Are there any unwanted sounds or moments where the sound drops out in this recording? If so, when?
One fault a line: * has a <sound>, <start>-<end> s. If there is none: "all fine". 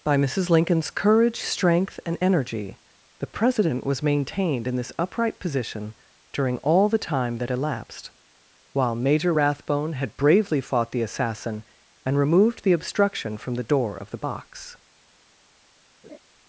* has a laugh, 16.0-16.2 s